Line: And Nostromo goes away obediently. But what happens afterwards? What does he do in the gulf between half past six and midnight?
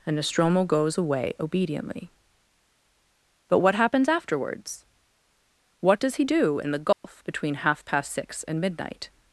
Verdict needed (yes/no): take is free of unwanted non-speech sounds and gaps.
no